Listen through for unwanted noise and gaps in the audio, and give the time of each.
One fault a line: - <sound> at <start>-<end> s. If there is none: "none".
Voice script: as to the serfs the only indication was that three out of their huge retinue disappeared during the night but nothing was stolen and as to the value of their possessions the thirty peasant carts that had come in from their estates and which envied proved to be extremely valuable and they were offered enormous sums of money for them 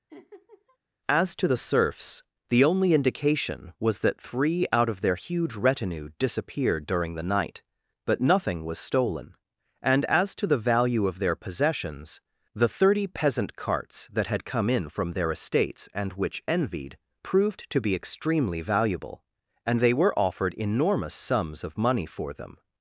- laugh at 0.1-0.8 s